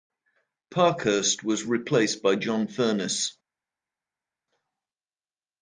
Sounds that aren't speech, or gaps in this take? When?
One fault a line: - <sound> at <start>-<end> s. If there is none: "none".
none